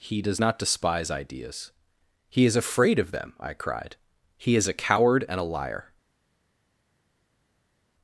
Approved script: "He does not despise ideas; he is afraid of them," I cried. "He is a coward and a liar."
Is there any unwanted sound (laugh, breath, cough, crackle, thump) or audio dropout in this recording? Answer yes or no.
no